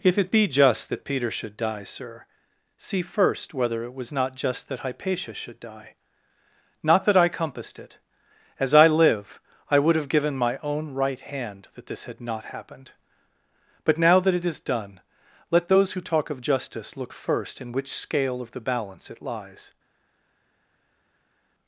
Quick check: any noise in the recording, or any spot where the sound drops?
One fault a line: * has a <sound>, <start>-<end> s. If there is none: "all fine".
all fine